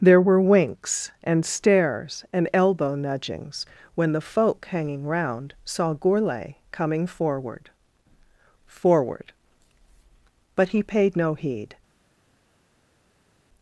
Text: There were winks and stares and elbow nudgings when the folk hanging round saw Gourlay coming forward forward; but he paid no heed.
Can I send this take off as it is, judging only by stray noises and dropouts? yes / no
yes